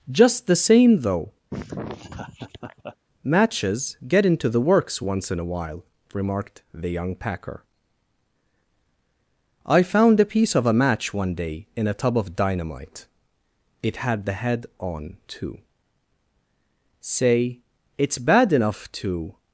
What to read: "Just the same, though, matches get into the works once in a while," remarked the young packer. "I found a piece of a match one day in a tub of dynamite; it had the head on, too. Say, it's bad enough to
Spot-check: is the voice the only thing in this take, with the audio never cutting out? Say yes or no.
no